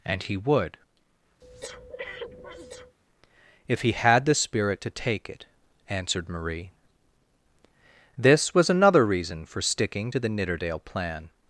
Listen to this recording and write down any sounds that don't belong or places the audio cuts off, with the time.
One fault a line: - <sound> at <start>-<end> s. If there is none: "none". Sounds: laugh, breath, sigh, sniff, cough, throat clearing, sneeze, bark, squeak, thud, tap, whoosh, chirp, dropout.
- breath at 1.4-3.0 s